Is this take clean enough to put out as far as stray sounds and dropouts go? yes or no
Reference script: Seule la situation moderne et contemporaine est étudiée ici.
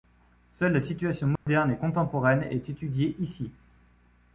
no